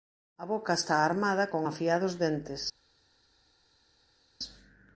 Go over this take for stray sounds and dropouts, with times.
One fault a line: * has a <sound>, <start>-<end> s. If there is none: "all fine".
all fine